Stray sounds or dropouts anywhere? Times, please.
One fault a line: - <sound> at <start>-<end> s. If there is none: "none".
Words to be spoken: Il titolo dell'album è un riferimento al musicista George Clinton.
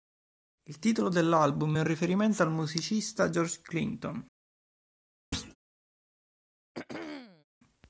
- thud at 5.3-5.6 s
- throat clearing at 6.7-7.4 s